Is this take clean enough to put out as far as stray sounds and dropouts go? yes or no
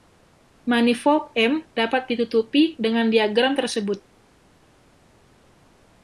yes